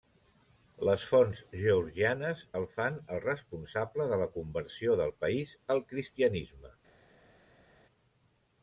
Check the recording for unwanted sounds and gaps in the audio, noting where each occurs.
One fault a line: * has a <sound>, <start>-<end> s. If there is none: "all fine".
all fine